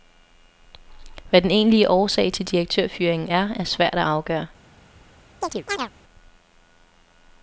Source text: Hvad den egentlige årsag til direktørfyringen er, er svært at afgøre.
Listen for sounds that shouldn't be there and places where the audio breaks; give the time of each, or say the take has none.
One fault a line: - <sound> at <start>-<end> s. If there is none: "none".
- chirp at 5.4-5.9 s